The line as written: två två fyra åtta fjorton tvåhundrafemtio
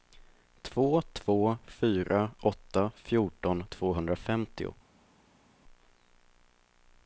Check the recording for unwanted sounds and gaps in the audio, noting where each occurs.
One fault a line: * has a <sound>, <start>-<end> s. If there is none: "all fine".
all fine